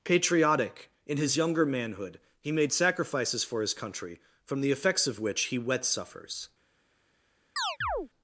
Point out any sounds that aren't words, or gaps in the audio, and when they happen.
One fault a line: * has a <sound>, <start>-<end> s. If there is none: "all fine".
* has a chirp, 7.6-8.1 s